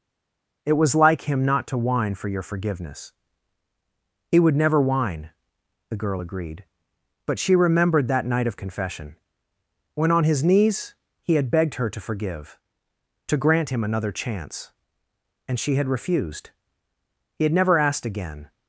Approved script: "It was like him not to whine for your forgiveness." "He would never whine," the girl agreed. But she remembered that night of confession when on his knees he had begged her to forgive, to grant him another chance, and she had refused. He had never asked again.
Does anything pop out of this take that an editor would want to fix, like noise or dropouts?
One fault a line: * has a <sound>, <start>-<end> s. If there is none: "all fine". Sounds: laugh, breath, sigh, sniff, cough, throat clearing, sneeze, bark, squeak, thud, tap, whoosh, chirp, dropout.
all fine